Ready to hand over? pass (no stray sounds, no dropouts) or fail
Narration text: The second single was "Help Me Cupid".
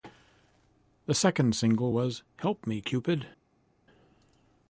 pass